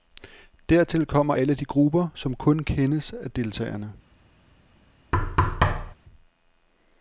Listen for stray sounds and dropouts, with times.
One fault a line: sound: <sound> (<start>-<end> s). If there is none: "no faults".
sound: thud (5.1-6.0 s)